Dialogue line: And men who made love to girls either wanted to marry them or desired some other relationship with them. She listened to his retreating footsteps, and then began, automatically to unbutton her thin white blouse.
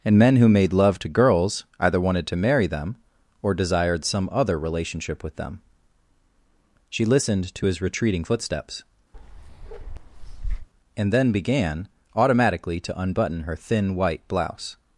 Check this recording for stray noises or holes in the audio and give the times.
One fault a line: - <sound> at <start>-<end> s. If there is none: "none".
- bark at 9.1-10.7 s